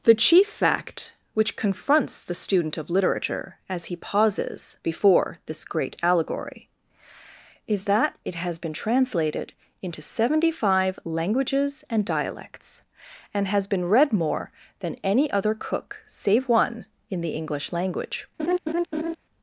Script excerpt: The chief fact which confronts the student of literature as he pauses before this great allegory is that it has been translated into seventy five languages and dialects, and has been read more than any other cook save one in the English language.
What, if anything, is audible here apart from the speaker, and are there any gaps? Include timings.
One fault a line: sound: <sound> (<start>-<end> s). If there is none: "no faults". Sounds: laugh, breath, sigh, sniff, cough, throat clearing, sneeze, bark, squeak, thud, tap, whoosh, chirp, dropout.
sound: laugh (18.4-19.2 s)